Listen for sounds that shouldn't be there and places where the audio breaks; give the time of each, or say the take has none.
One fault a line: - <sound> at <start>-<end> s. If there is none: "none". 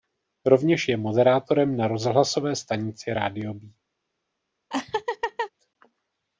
- laugh at 4.7-5.5 s